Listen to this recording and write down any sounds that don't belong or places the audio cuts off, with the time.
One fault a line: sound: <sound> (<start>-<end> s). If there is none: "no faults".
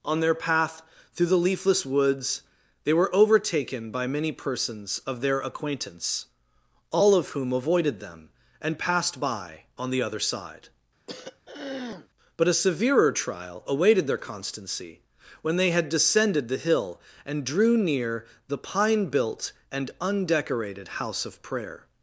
sound: throat clearing (11.1-12.1 s)